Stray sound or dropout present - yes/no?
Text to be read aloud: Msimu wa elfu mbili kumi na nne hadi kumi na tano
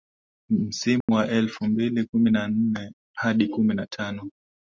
yes